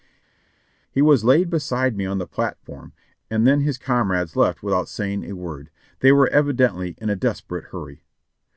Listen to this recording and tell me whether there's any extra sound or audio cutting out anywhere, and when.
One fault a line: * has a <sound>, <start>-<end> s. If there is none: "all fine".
all fine